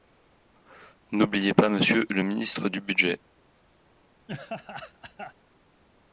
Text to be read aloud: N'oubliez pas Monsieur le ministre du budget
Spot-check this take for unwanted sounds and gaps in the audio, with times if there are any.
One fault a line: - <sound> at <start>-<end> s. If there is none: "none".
- laugh at 4.3-5.3 s